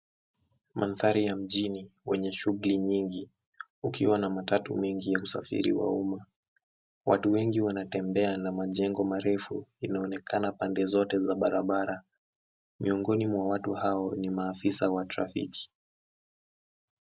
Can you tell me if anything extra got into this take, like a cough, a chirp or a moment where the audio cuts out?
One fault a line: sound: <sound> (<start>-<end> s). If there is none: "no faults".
no faults